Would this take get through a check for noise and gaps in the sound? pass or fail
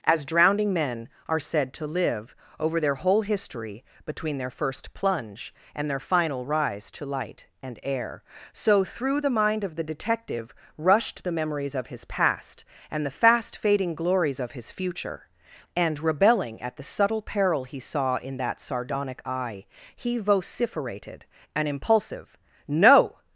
pass